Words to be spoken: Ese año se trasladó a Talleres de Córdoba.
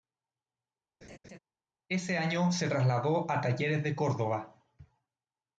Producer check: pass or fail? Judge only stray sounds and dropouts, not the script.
fail